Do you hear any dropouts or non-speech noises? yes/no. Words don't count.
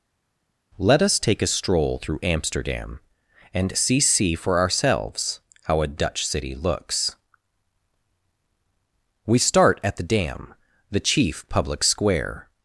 no